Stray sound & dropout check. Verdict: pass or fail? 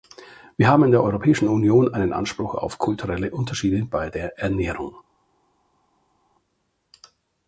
pass